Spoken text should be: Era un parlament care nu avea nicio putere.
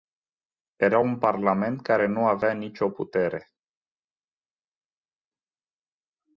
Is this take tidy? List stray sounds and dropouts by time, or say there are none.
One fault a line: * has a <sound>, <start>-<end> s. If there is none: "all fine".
all fine